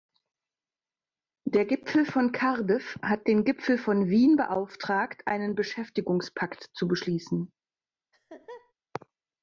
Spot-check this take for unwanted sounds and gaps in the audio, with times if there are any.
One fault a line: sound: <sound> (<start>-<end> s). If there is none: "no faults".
sound: laugh (8.1-8.7 s)